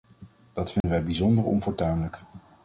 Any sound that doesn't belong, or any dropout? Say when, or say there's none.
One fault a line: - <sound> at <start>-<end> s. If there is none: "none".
- dropout at 0.8-0.8 s